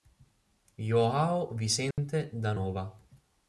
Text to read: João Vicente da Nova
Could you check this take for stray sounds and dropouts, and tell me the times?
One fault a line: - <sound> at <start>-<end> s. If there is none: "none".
- dropout at 1.9-2.0 s